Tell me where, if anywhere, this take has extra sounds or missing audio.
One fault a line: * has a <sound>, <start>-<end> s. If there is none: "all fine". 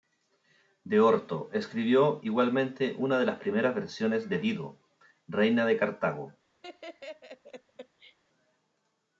* has a laugh, 6.6-8.2 s